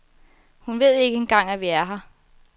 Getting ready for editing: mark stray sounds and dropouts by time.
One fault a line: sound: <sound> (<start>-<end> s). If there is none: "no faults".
no faults